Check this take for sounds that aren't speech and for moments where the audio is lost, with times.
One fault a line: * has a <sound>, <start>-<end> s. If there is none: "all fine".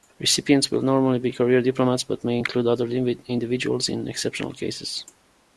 all fine